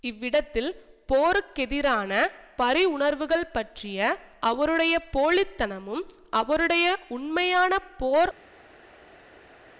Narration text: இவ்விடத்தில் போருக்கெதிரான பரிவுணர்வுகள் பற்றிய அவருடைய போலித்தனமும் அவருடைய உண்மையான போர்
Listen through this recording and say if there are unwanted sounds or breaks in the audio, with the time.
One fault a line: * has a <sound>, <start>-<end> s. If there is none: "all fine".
all fine